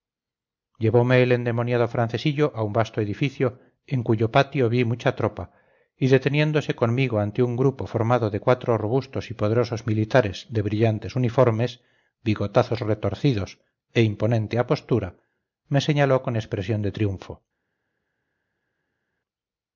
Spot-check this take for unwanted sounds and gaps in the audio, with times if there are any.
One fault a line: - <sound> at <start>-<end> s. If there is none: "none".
none